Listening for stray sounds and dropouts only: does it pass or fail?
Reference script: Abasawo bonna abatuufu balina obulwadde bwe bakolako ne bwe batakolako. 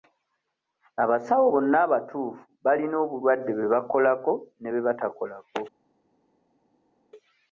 pass